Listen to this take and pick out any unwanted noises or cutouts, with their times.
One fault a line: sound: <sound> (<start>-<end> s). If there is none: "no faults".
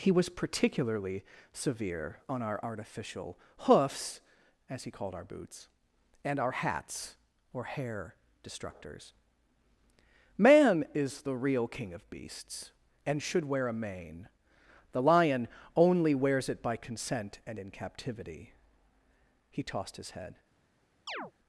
sound: chirp (21.1-21.3 s)